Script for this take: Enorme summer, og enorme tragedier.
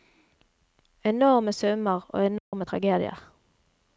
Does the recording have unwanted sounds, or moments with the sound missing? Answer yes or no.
yes